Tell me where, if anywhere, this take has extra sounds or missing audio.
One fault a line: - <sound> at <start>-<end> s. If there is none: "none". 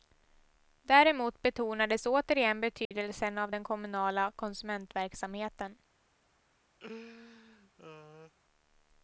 - dropout at 2.8-2.9 s
- laugh at 6.8-8.3 s